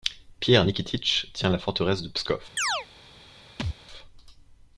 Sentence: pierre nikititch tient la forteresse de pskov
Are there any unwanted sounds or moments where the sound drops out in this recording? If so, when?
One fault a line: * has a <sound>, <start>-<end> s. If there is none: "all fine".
* has a chirp, 2.6-2.9 s
* has a thud, 3.6-3.8 s